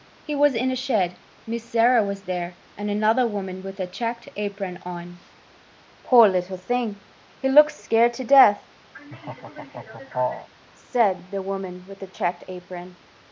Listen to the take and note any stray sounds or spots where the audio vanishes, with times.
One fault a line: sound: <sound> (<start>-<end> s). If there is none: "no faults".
sound: laugh (8.9-10.5 s)